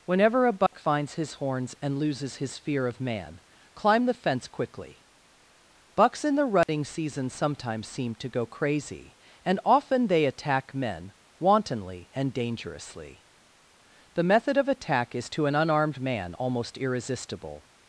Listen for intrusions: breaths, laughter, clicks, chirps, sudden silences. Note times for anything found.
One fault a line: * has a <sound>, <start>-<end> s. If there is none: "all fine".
* has a dropout, 0.7-0.7 s
* has a dropout, 6.6-6.7 s